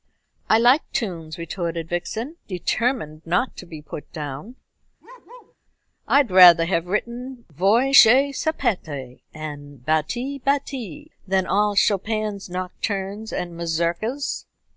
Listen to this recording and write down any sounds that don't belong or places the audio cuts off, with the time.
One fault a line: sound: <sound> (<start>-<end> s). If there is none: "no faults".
sound: bark (5.0-5.6 s)